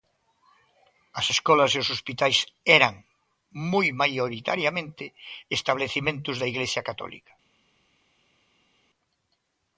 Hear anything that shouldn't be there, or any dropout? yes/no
no